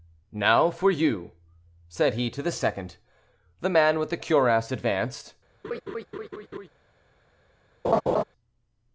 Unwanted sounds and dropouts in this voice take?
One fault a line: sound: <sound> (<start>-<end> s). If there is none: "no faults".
sound: laugh (5.6-6.7 s)
sound: laugh (7.8-8.2 s)